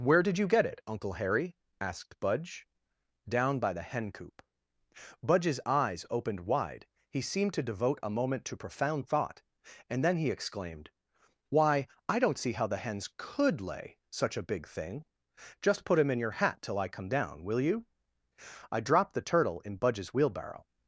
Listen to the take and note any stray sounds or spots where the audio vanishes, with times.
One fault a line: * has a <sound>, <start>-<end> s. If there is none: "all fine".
all fine